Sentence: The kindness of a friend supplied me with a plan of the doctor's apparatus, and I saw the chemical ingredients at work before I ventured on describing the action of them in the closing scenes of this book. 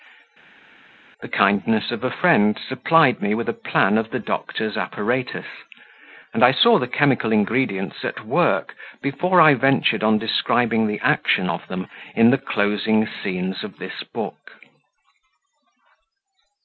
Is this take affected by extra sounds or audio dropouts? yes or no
no